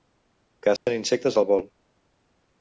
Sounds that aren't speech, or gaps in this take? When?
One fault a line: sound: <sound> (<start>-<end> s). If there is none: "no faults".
sound: dropout (0.8-0.9 s)